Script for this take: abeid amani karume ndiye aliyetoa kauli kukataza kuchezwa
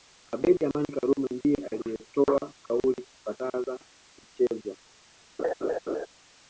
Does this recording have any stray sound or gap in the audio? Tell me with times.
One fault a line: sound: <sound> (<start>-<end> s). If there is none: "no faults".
sound: laugh (5.4-6.1 s)